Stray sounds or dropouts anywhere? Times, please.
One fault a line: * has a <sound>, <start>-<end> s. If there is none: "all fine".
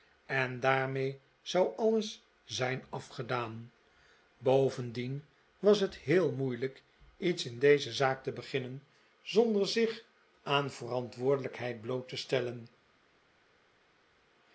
all fine